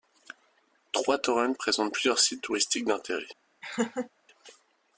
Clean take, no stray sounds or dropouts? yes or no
no